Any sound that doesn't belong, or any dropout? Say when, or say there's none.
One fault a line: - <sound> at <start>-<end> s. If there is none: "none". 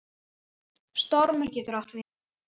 none